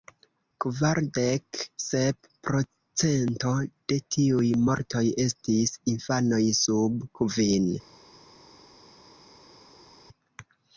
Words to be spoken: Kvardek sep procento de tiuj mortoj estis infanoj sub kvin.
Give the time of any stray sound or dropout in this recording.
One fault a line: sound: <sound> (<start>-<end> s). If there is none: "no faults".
no faults